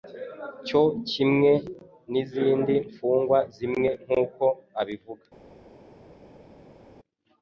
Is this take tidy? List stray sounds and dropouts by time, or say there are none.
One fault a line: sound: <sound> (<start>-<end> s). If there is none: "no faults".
no faults